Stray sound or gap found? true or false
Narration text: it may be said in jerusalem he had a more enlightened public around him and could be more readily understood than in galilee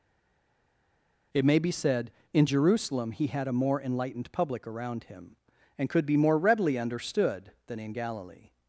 false